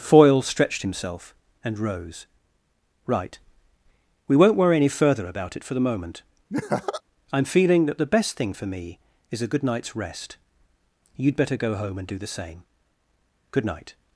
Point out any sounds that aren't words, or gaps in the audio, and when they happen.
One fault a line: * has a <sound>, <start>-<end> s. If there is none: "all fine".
* has a laugh, 6.5-7.0 s